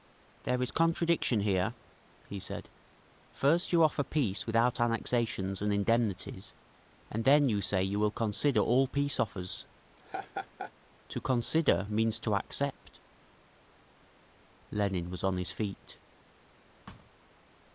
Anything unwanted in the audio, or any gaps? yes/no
yes